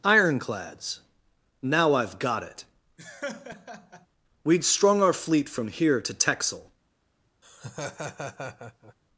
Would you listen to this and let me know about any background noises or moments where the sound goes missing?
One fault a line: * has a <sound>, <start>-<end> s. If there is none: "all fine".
* has a laugh, 3.0-4.1 s
* has a laugh, 7.4-8.9 s